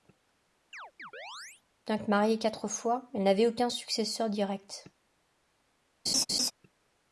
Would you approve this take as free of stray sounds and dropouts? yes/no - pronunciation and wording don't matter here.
no